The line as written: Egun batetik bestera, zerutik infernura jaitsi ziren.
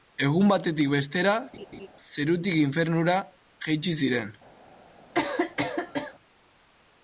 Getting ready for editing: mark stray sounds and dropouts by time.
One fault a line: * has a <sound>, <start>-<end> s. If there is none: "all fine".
* has a laugh, 1.5-1.9 s
* has a cough, 5.1-6.1 s